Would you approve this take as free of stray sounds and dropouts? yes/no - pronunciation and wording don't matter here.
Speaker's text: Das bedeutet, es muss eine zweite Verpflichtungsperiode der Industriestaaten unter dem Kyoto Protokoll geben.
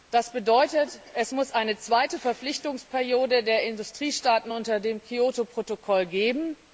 yes